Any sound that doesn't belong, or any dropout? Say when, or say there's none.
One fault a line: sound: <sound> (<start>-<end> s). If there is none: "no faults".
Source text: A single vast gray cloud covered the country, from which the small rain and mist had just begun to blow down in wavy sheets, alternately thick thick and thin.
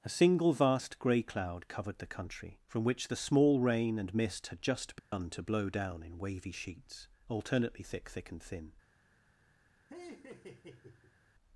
sound: dropout (5.0-5.1 s)
sound: laugh (9.9-11.2 s)